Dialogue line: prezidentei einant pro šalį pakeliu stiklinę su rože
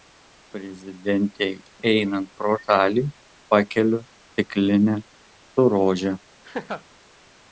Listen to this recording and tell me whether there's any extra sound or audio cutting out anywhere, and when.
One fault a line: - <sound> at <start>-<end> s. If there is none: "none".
- laugh at 6.4-6.8 s